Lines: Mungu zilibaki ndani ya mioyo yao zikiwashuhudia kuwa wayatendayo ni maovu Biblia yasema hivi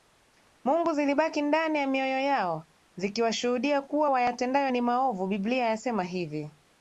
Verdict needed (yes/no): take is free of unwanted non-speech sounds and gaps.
yes